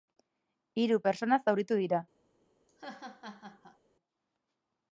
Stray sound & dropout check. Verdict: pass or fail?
fail